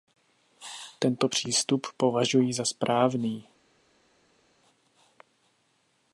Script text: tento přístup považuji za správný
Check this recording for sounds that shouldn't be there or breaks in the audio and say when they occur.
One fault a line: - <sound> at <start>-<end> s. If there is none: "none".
none